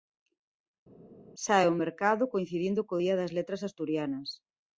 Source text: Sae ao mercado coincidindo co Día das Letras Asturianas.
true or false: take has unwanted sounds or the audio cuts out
false